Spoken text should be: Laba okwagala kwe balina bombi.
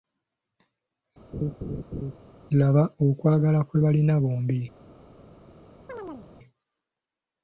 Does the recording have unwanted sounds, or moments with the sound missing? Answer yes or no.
yes